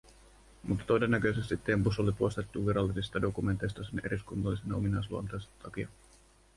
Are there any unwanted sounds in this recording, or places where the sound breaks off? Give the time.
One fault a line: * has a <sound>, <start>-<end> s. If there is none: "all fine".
all fine